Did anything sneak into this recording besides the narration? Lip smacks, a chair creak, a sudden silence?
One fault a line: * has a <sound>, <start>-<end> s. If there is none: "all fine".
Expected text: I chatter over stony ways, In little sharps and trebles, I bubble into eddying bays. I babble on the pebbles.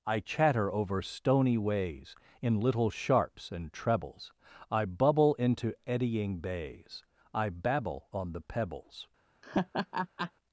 * has a laugh, 9.4-10.3 s